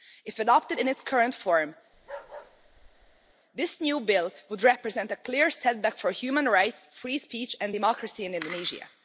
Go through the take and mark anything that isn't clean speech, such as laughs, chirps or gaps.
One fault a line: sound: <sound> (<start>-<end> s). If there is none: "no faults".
sound: bark (1.9-3.3 s)